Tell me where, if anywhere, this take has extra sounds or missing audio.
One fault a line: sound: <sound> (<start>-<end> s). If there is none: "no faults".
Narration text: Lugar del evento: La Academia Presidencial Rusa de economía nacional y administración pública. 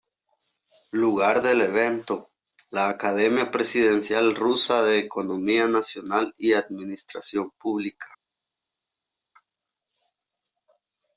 no faults